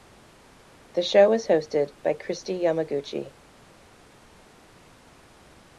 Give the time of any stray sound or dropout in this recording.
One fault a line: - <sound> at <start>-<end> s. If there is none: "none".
none